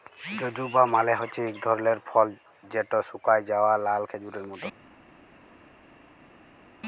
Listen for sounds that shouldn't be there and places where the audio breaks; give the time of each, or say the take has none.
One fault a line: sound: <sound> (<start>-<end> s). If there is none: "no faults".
no faults